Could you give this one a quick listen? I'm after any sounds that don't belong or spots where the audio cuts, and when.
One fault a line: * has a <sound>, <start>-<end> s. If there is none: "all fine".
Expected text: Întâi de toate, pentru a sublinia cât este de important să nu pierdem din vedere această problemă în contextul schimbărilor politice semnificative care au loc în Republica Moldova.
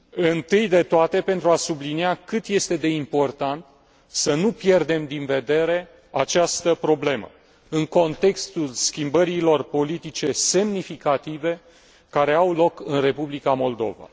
all fine